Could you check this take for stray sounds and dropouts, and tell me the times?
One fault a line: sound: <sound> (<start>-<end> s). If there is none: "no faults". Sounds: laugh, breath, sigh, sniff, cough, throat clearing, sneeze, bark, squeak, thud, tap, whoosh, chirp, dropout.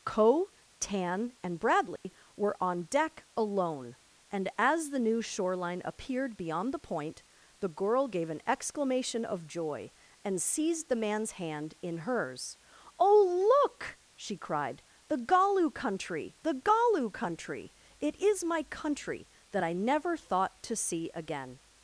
sound: dropout (2.0-2.0 s)